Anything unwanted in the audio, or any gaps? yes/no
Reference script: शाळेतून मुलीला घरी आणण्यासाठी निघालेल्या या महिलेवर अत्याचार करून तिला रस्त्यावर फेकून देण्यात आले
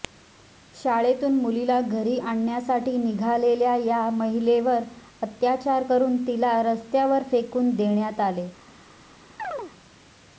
yes